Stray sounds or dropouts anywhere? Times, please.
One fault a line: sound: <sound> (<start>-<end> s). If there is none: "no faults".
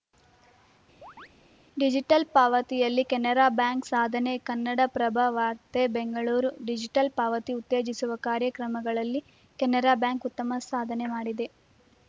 sound: chirp (1.0-1.3 s)